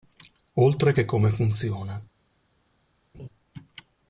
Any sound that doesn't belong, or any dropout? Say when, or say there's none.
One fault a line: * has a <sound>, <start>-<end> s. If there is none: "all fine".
* has a laugh, 3.1-3.3 s